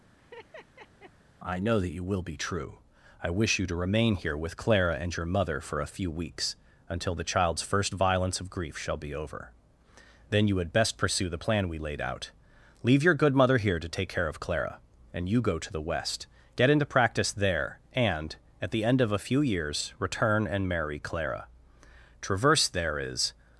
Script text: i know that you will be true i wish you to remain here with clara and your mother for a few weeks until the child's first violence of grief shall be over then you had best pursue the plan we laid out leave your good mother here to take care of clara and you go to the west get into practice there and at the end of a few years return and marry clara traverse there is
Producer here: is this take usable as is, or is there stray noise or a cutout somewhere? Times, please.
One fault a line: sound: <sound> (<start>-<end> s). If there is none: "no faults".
sound: laugh (0.2-1.1 s)